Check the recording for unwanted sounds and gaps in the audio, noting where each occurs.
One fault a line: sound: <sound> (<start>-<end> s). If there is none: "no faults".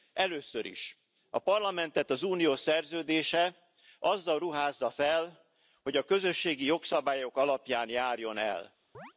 sound: chirp (8.9-9.1 s)